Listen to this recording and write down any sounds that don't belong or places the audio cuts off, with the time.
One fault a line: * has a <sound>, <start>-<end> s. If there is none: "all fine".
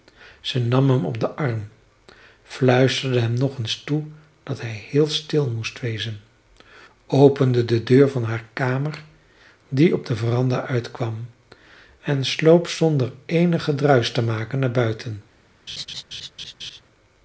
* has a laugh, 15.7-16.8 s